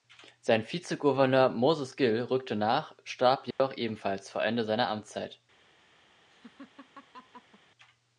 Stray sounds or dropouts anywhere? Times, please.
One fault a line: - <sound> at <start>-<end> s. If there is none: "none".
- dropout at 3.5-3.6 s
- laugh at 6.3-7.6 s